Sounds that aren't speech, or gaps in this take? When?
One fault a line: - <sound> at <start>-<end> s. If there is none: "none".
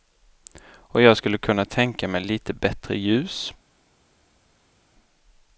none